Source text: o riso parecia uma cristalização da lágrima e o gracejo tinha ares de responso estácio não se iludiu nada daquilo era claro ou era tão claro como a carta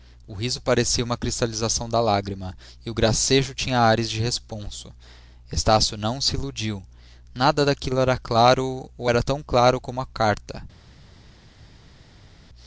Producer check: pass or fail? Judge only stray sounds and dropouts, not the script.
pass